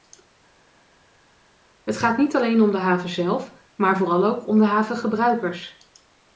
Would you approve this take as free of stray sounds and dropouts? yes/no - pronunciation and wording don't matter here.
yes